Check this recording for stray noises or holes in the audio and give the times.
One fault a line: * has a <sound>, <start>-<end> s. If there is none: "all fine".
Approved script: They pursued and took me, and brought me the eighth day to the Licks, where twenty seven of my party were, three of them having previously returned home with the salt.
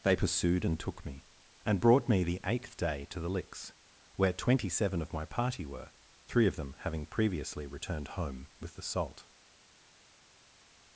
all fine